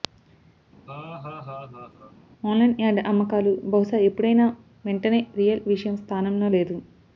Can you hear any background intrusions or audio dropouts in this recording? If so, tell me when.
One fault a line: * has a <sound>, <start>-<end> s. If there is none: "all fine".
* has a laugh, 0.9-2.1 s